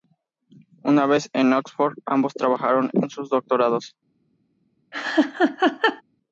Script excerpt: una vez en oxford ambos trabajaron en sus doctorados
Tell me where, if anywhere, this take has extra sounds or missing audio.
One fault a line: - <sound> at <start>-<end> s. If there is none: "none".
- laugh at 4.9-6.0 s